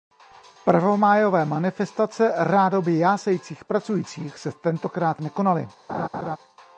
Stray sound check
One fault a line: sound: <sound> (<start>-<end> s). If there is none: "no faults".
sound: laugh (5.9-6.4 s)